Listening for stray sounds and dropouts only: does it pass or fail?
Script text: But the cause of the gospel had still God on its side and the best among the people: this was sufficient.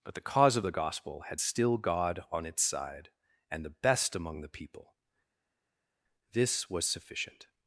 pass